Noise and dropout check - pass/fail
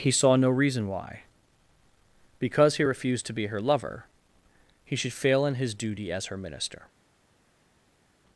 pass